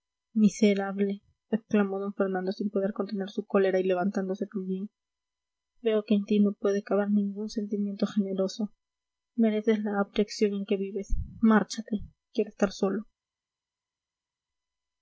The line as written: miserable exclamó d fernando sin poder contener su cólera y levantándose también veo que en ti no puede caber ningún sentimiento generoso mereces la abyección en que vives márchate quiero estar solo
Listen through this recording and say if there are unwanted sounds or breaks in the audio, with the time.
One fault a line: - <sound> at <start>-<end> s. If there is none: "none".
none